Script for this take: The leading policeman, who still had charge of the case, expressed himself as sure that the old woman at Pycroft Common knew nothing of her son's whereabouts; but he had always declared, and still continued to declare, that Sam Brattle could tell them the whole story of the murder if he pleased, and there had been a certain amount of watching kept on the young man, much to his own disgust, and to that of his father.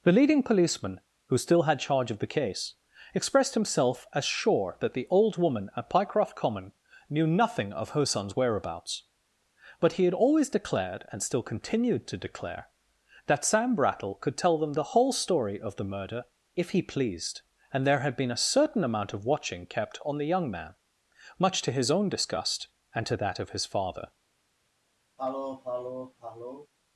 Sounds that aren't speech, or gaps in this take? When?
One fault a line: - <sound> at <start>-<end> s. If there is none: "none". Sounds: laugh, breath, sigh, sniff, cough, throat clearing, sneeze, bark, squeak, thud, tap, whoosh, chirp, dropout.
- sniff at 25.2-26.7 s